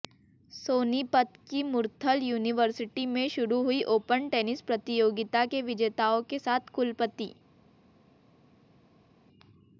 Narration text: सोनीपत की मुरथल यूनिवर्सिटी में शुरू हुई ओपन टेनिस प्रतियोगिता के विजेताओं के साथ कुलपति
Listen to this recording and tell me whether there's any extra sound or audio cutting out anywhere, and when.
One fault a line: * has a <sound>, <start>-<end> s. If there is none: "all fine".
all fine